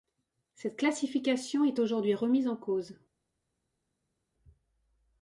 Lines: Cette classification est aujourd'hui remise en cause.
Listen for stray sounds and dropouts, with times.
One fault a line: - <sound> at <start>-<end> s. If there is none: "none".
none